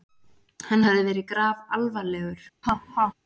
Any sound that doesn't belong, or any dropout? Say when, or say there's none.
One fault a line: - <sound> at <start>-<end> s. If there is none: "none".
- laugh at 2.6-3.1 s